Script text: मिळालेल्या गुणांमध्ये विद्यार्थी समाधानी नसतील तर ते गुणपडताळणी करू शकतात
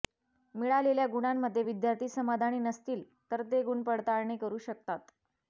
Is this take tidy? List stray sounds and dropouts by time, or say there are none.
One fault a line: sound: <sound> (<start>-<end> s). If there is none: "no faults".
no faults